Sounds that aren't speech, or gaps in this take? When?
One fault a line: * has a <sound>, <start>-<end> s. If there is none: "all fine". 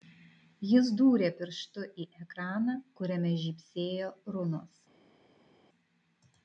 all fine